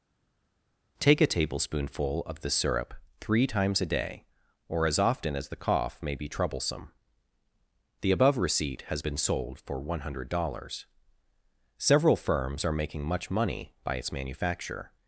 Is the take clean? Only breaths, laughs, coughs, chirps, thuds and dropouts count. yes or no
yes